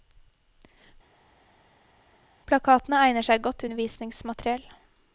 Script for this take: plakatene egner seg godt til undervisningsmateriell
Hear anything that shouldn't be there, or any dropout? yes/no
no